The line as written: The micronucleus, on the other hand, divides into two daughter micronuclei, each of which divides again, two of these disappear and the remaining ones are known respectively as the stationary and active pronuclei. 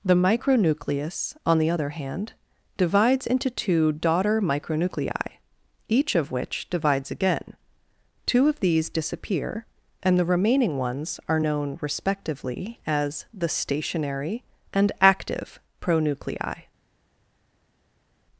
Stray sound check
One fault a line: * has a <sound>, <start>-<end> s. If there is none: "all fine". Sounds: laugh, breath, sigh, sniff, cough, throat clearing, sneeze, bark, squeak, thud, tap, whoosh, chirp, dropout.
all fine